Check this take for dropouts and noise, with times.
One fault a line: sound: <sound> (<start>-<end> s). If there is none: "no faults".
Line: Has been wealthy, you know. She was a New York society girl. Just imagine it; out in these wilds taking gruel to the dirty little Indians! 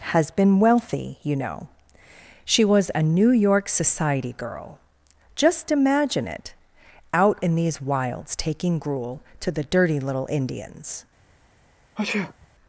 sound: sneeze (12.0-12.5 s)